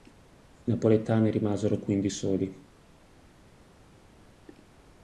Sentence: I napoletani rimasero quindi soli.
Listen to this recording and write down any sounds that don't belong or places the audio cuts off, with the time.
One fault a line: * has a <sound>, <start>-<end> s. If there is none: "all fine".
all fine